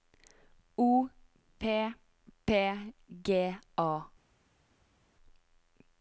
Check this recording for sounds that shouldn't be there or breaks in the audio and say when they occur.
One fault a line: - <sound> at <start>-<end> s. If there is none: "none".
none